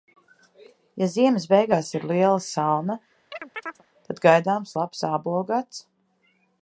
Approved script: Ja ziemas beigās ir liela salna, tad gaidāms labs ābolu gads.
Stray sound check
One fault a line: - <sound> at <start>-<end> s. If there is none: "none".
- chirp at 3.3-3.8 s